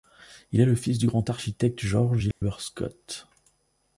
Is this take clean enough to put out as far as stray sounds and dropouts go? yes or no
no